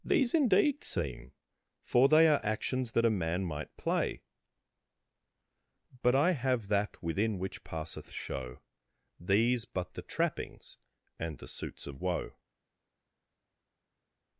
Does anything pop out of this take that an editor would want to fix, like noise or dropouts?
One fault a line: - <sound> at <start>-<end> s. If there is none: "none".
none